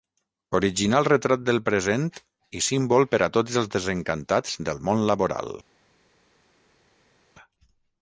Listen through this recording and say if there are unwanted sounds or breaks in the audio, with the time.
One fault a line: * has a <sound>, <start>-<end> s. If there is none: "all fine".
all fine